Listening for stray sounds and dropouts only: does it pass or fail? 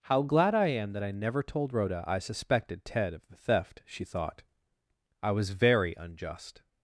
pass